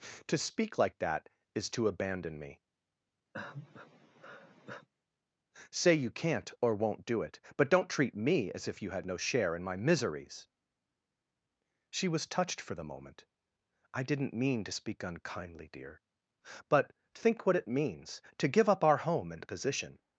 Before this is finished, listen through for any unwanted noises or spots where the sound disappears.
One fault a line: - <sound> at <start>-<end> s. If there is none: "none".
- sigh at 3.3-4.9 s